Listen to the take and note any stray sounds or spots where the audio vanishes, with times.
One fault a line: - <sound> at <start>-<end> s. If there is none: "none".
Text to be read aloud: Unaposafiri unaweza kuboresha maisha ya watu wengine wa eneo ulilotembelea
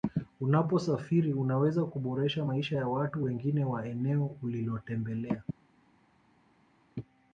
none